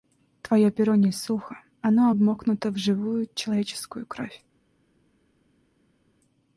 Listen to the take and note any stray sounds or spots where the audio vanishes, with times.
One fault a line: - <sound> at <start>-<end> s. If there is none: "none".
none